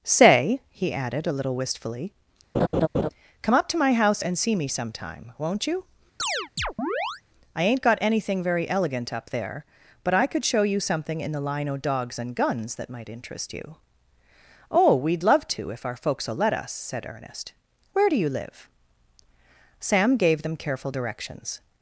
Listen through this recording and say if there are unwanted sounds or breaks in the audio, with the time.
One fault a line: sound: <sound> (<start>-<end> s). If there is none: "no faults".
sound: laugh (2.5-3.1 s)
sound: chirp (6.2-7.2 s)